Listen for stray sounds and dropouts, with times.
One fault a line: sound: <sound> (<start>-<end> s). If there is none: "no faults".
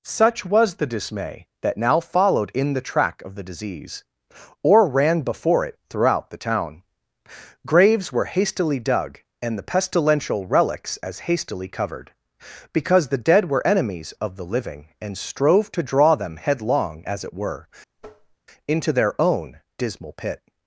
sound: tap (18.0-18.4 s)